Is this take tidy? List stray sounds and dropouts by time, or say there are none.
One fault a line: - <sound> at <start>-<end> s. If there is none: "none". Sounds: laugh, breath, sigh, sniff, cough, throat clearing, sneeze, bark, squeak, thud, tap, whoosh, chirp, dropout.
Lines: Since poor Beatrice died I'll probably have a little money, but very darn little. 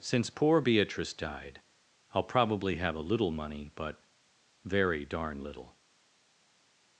none